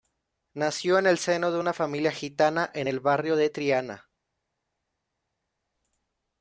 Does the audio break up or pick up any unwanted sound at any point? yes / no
no